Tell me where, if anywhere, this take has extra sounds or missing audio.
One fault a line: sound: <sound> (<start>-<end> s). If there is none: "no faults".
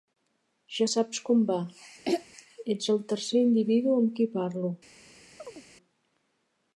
sound: throat clearing (2.1-2.3 s)
sound: chirp (5.4-5.6 s)